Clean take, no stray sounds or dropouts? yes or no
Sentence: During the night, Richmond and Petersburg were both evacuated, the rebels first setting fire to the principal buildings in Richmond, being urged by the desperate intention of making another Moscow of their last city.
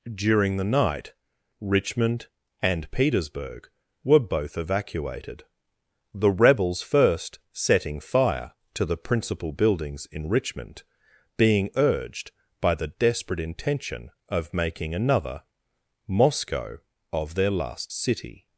yes